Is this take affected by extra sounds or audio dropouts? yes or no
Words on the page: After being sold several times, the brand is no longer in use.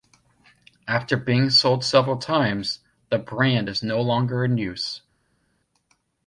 no